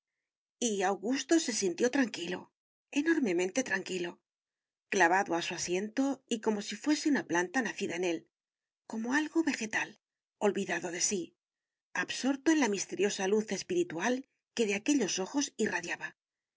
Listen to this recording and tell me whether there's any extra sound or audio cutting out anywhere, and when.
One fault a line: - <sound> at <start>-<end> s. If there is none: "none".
none